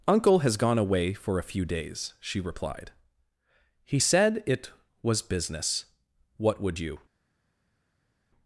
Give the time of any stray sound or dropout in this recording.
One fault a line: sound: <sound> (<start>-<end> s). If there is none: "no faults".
no faults